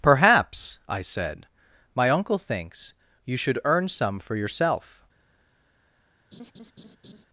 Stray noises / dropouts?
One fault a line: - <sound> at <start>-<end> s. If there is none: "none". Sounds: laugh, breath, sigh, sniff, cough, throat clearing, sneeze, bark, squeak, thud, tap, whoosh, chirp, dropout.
- laugh at 6.3-7.3 s